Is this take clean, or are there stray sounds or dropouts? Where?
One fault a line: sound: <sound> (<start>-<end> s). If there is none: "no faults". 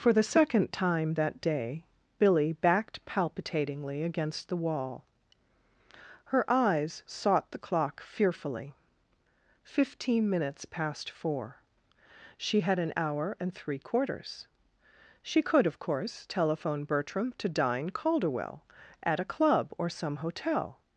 no faults